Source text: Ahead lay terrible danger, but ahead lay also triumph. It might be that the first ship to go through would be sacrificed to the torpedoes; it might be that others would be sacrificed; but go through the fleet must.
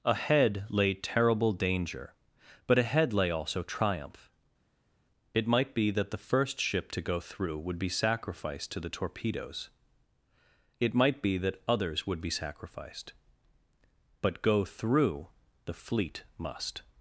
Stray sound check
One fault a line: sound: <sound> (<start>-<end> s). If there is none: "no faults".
no faults